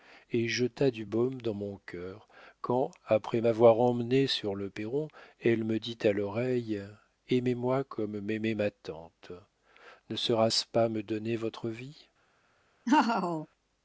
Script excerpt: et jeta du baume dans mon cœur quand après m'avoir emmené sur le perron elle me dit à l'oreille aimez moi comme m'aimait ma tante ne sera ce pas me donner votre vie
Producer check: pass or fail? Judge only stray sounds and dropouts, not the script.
fail